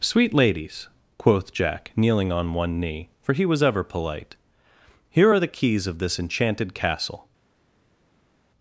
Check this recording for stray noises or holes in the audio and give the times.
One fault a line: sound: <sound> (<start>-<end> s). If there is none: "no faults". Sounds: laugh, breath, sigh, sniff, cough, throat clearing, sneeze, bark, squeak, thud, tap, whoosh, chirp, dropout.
no faults